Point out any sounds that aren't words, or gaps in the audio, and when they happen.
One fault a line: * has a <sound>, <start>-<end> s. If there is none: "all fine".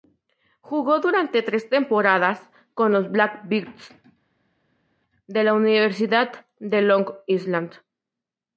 all fine